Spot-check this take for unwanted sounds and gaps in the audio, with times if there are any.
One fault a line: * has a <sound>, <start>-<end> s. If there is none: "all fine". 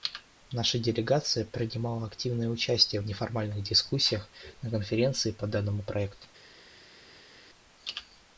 all fine